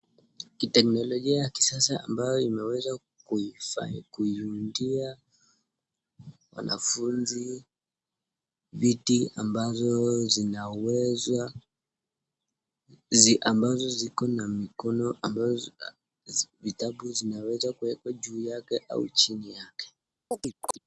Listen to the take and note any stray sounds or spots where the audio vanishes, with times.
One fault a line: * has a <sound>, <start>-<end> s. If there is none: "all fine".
* has a chirp, 20.3-20.8 s